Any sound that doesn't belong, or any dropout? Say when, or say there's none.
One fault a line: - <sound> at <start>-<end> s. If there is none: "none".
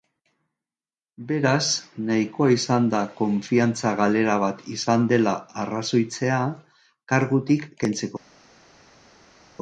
none